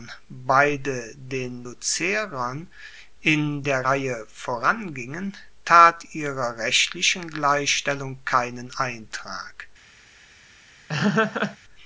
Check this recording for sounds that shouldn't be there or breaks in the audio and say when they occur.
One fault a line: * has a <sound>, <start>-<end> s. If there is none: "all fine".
* has a laugh, 10.9-11.6 s